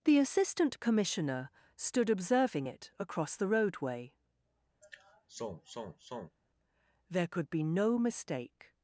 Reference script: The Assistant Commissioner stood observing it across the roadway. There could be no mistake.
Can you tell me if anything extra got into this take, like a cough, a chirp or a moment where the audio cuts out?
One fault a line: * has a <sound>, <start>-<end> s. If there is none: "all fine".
* has a sigh, 4.8-6.4 s